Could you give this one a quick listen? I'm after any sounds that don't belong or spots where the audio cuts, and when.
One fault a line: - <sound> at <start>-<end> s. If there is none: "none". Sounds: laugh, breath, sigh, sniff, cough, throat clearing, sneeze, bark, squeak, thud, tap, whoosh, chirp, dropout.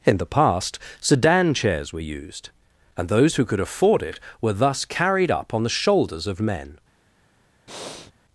- breath at 7.7-8.1 s